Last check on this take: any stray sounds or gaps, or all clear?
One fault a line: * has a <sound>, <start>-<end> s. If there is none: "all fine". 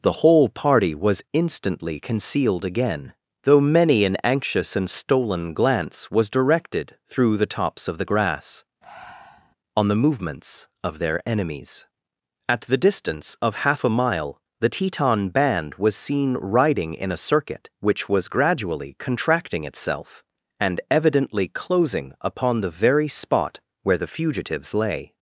* has a breath, 8.8-9.6 s